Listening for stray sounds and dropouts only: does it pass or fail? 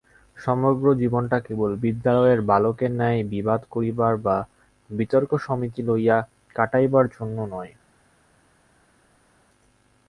pass